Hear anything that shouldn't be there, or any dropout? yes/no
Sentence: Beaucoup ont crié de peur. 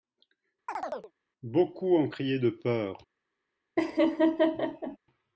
yes